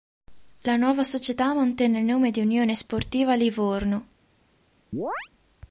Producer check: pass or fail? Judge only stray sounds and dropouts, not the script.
fail